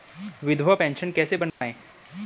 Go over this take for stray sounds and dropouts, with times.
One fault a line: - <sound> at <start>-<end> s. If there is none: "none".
- dropout at 1.5-1.6 s